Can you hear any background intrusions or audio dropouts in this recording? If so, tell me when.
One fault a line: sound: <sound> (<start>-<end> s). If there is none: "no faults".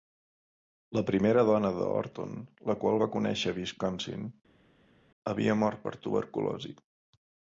no faults